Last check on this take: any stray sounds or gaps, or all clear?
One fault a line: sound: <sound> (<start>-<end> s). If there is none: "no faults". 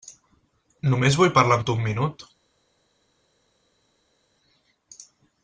no faults